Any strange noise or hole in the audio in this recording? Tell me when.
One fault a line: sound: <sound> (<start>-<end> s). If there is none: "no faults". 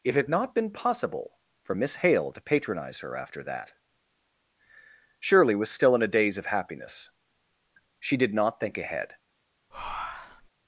sound: breath (9.7-10.5 s)